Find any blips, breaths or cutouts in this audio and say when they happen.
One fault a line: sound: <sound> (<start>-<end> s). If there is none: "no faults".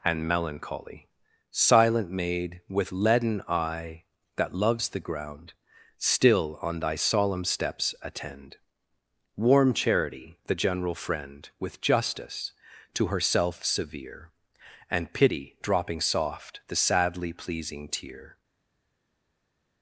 no faults